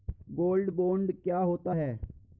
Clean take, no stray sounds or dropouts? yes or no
yes